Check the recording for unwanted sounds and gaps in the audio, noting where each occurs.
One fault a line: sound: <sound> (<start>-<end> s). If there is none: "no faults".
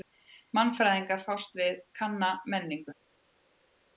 no faults